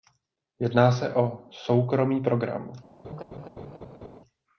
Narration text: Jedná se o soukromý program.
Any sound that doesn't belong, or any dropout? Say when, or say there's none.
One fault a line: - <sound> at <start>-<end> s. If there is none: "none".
- laugh at 3.0-4.2 s